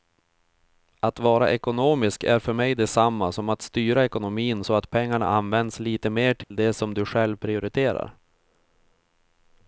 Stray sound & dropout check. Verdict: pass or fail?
fail